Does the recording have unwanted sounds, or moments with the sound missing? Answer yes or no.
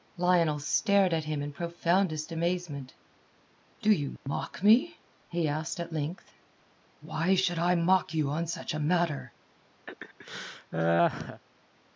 yes